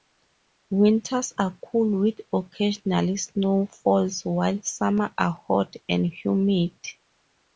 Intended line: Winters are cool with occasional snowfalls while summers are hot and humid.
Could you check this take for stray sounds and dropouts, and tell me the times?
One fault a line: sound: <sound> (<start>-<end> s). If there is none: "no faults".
no faults